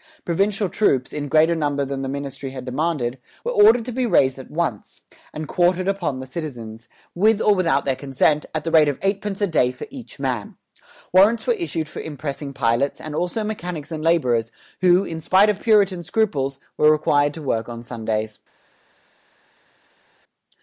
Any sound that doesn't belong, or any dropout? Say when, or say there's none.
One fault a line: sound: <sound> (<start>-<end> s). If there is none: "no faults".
no faults